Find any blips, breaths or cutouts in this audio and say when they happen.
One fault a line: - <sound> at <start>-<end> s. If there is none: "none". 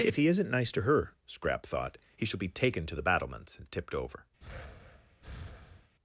- breath at 4.4-5.9 s